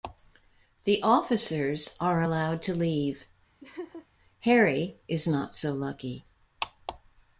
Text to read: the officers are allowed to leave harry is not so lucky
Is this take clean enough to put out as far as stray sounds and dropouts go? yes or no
no